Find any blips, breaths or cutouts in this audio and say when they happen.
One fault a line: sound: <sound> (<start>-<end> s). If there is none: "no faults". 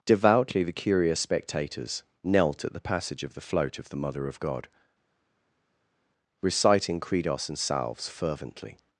no faults